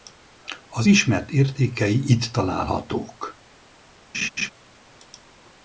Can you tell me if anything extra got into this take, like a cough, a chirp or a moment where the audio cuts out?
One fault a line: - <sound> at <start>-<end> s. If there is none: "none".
- laugh at 4.1-4.5 s